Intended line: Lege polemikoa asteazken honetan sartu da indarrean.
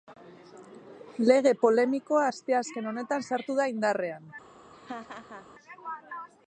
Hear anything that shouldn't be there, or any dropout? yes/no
yes